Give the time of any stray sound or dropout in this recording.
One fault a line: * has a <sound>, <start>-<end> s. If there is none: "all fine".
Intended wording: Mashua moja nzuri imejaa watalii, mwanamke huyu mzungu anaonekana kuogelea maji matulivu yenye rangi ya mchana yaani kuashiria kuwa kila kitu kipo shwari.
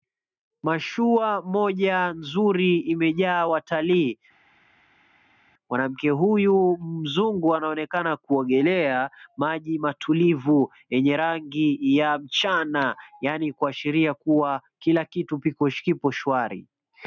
all fine